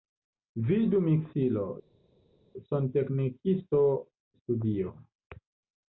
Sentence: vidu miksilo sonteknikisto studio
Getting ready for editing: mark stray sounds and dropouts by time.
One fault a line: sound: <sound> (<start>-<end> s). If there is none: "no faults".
no faults